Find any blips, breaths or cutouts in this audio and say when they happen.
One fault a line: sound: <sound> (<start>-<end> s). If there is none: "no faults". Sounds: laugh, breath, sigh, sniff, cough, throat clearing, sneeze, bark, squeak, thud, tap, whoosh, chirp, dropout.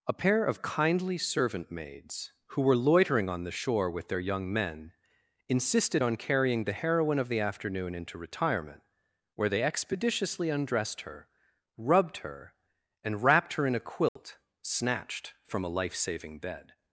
sound: dropout (14.1-14.2 s)